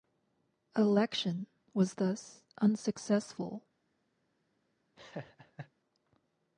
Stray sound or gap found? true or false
true